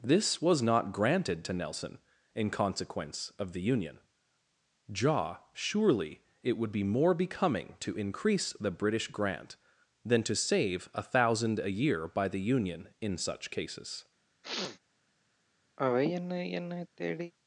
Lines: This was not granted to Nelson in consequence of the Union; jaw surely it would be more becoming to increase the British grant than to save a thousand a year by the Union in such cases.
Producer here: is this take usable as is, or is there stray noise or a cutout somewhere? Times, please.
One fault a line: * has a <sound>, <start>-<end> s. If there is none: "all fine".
* has a sniff, 14.4-14.8 s
* has a sigh, 15.8-17.3 s